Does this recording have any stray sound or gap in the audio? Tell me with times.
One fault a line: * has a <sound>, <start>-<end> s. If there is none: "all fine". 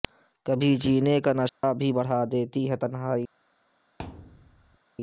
* has a dropout, 1.5-1.6 s
* has a thud, 4.0-4.8 s